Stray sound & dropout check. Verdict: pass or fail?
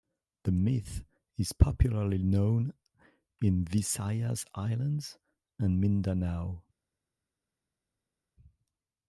pass